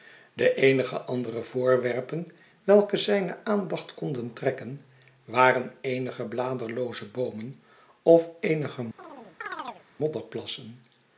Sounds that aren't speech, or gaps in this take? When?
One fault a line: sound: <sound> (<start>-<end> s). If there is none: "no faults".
sound: chirp (9.0-9.8 s)